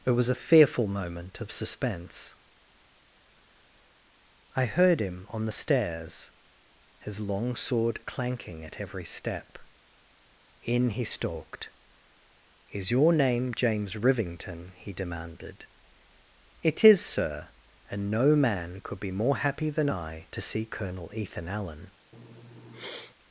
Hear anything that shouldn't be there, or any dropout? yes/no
yes